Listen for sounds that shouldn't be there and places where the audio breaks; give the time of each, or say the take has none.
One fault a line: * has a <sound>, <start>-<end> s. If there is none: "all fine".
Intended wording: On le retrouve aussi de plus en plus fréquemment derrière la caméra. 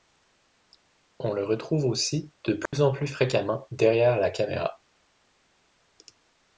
* has a dropout, 2.7-2.7 s